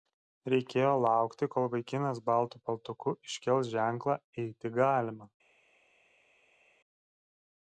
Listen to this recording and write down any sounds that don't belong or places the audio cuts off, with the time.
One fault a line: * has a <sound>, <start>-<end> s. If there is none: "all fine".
all fine